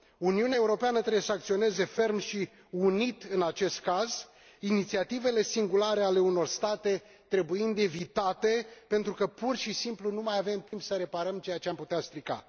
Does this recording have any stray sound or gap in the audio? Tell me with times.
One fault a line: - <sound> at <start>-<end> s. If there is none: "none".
- dropout at 10.7-10.7 s